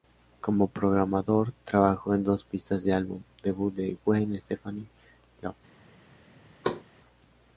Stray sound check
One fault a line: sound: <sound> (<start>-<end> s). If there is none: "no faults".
sound: thud (6.6-6.8 s)